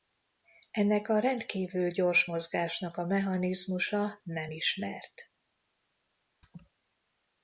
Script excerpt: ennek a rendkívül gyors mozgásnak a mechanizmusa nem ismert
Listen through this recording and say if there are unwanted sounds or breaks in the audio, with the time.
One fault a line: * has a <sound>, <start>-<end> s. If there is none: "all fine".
* has a laugh, 6.4-6.7 s